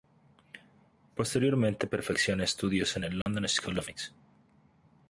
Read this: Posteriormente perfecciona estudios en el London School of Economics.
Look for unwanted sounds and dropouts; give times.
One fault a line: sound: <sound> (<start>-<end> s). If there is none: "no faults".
sound: dropout (3.2-3.3 s)